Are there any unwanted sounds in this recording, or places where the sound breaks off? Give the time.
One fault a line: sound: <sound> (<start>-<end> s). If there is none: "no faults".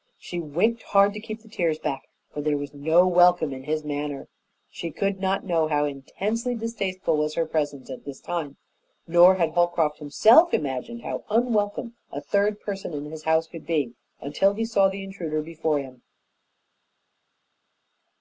no faults